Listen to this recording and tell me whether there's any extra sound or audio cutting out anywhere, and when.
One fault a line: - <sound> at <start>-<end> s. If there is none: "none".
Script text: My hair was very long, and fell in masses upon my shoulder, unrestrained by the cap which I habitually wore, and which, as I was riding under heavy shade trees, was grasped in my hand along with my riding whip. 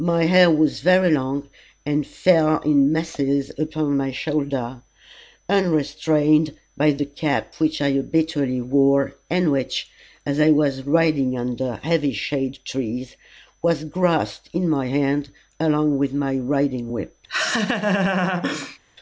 - laugh at 17.3-18.8 s